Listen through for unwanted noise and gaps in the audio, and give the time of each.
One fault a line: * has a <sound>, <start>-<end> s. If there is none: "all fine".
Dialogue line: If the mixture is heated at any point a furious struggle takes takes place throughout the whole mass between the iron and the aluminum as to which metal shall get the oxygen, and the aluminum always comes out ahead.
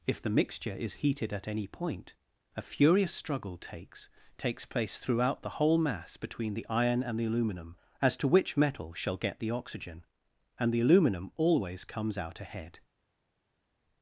all fine